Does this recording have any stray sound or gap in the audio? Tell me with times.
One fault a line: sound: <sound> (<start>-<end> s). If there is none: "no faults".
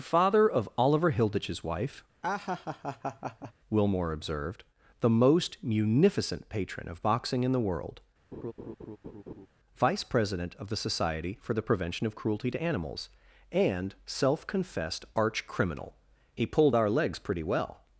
sound: laugh (2.2-3.5 s)
sound: laugh (8.3-9.5 s)